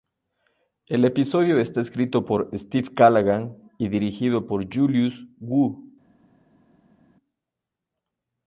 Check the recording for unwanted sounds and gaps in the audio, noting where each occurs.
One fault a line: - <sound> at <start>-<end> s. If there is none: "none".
none